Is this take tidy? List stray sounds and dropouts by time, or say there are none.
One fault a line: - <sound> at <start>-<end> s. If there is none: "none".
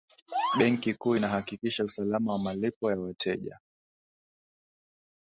none